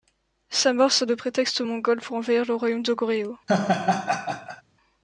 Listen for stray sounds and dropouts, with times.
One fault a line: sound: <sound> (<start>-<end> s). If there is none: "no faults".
sound: laugh (3.5-4.6 s)